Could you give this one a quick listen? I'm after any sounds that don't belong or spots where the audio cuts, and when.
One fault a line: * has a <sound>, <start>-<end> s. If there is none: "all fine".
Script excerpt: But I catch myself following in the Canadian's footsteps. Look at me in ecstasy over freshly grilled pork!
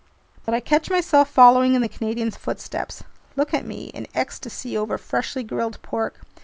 * has a dropout, 0.4-0.5 s